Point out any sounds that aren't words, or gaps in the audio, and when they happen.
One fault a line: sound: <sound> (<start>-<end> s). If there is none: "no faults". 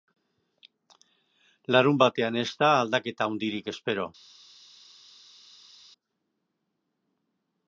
no faults